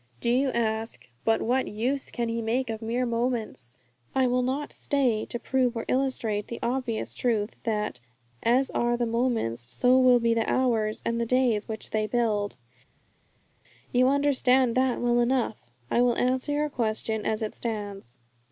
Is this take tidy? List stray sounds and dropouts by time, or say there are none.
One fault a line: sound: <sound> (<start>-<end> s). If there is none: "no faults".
no faults